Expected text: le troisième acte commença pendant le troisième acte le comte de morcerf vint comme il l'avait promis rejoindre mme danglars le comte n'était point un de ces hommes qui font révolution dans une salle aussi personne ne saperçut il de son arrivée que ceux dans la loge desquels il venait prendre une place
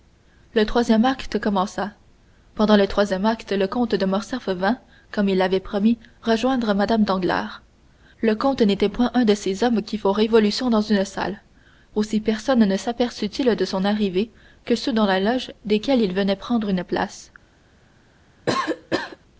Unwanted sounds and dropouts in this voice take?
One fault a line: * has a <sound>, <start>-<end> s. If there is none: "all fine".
* has a cough, 18.5-19.2 s